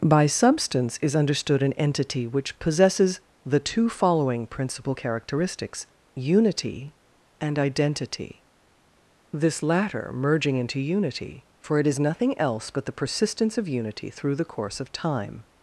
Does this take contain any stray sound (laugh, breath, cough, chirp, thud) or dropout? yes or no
no